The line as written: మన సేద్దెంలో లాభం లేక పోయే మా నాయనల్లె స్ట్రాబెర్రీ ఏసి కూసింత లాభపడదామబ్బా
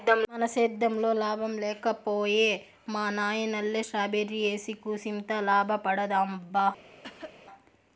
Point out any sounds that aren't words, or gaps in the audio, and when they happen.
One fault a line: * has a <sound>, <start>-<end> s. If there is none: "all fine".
* has a cough, 7.0-7.4 s